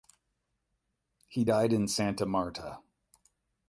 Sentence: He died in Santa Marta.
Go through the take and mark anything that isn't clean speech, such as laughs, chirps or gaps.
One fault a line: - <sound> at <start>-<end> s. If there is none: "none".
none